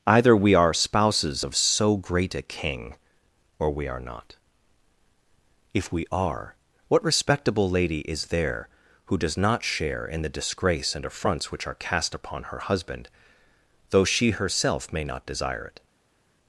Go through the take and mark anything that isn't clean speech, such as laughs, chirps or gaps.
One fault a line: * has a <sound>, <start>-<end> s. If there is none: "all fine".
all fine